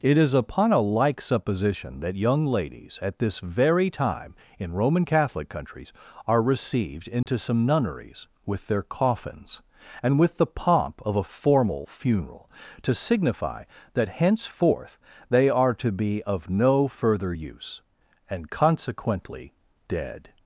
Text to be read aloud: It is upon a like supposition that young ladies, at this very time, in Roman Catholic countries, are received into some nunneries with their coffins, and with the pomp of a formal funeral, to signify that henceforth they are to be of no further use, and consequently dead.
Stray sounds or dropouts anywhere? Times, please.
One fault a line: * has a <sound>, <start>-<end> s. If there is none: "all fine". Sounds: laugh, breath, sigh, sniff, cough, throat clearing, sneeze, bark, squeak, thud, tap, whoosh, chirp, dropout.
* has a dropout, 7.2-7.3 s